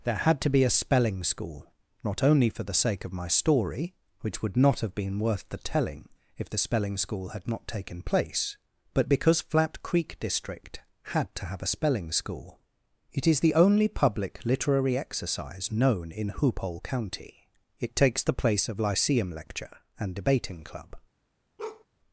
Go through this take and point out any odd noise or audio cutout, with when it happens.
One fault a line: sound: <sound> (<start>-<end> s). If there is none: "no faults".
sound: bark (21.6-21.8 s)